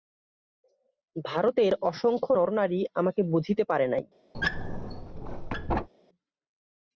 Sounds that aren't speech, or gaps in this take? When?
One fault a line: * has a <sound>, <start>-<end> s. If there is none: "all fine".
* has a squeak, 4.3-5.9 s